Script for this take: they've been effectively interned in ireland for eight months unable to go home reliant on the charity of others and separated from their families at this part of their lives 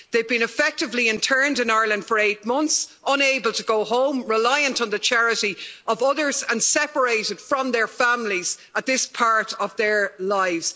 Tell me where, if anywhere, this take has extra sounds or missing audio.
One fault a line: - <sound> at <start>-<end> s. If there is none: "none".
none